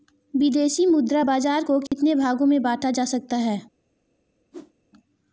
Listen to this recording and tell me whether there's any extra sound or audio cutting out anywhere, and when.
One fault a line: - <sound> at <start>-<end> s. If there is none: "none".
- dropout at 1.9-1.9 s
- whoosh at 4.5-4.7 s